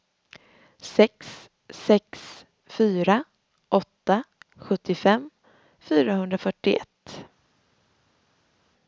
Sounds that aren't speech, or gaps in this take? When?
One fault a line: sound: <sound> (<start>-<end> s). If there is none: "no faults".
no faults